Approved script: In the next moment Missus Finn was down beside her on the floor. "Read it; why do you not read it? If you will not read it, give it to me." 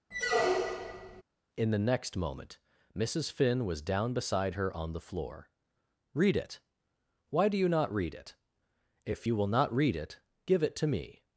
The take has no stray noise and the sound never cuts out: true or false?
false